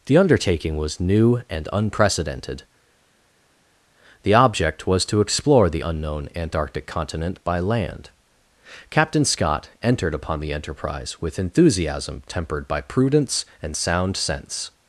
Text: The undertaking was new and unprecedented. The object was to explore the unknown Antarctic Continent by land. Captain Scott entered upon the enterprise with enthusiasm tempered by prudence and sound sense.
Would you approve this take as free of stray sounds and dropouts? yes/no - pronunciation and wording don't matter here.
yes